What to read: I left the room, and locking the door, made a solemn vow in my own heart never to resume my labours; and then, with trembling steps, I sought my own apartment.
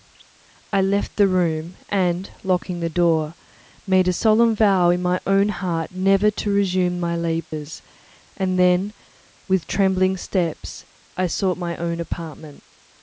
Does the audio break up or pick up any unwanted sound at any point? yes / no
yes